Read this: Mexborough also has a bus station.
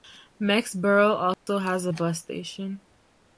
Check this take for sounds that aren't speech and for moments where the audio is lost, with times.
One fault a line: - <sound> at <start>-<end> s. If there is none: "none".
- dropout at 1.3-1.5 s